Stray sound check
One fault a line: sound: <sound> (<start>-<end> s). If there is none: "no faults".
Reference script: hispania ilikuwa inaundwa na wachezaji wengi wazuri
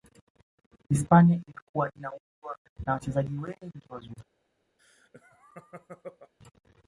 sound: laugh (4.8-6.3 s)